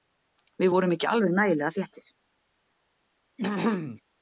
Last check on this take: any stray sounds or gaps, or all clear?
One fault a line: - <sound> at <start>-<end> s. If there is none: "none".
- throat clearing at 3.4-4.0 s